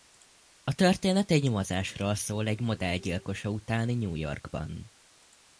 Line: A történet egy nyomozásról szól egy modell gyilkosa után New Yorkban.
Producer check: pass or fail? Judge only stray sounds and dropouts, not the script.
pass